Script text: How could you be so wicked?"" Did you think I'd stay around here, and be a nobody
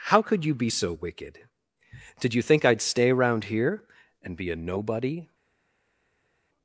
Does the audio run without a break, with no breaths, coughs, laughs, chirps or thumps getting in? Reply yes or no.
yes